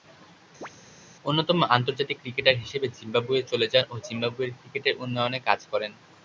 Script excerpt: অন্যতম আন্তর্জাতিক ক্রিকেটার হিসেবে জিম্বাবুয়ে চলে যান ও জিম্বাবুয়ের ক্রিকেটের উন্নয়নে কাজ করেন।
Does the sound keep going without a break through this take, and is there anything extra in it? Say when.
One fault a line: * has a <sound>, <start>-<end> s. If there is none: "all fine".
* has a chirp, 0.6-0.7 s